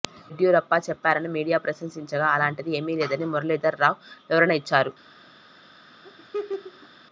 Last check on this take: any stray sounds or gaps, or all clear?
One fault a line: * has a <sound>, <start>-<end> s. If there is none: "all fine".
* has a laugh, 6.0-6.9 s